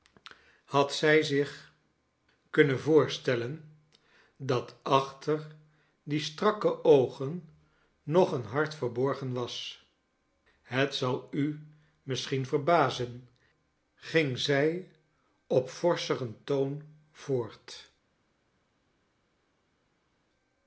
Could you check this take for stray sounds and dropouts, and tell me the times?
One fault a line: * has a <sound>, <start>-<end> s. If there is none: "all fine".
all fine